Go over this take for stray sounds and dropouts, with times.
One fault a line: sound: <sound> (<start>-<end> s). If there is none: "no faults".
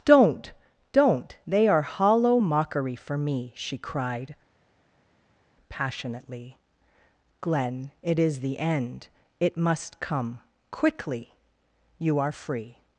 no faults